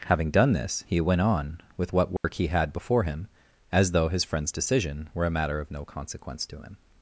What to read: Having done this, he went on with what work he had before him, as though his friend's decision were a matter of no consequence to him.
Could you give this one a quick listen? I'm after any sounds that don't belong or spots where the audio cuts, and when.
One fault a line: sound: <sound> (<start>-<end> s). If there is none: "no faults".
sound: dropout (2.2-2.2 s)